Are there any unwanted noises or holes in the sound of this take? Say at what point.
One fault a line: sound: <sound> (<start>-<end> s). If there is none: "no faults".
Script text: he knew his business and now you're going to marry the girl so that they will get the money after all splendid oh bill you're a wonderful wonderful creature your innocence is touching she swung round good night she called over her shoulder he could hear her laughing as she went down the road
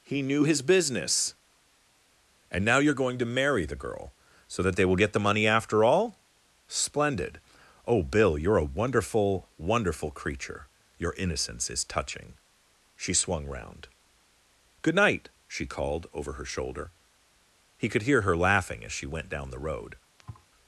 sound: thud (20.2-20.5 s)